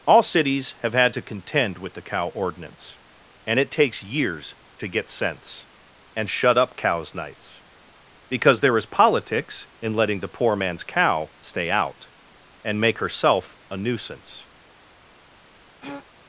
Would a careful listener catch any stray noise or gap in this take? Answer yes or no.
yes